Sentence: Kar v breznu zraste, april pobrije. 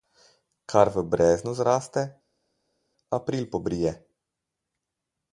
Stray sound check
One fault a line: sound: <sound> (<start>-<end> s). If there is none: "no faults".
no faults